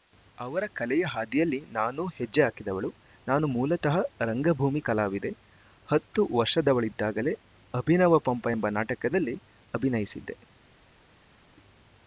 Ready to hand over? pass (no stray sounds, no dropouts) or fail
pass